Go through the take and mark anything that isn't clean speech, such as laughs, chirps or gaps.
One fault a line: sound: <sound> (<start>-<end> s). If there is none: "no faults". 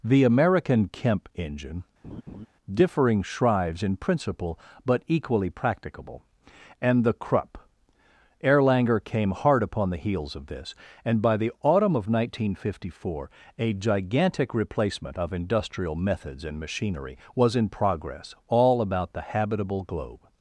sound: laugh (2.0-2.5 s)